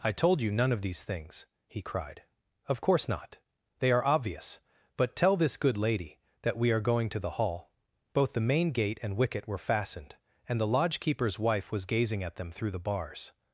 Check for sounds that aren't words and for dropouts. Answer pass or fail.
pass